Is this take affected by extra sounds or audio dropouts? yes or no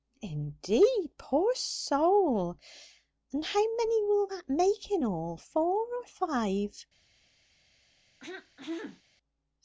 yes